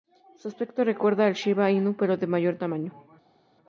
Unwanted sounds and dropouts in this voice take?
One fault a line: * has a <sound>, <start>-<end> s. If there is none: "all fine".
all fine